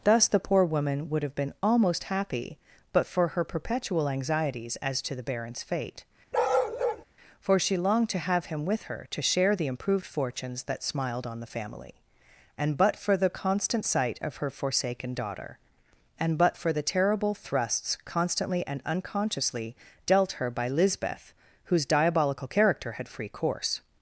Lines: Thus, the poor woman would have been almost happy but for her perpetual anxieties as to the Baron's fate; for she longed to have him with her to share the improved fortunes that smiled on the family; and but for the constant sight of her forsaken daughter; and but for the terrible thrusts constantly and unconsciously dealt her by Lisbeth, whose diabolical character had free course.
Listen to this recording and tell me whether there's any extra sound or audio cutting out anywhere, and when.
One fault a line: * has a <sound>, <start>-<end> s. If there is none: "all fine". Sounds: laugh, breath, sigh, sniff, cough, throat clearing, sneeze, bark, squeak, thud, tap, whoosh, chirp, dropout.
* has a bark, 6.3-7.0 s